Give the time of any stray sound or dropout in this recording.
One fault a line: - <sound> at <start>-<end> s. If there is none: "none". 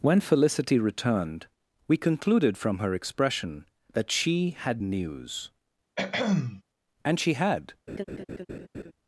- throat clearing at 6.0-6.6 s
- laugh at 7.9-8.9 s